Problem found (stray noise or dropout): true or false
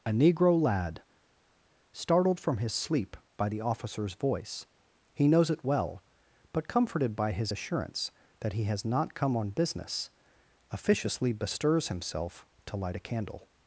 false